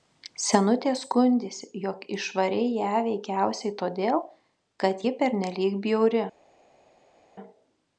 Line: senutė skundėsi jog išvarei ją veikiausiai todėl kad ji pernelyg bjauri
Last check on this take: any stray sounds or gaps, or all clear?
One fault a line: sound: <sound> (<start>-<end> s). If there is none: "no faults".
no faults